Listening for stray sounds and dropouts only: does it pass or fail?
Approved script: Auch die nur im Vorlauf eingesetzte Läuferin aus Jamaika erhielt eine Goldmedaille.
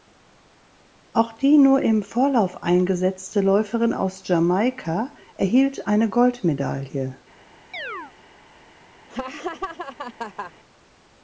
fail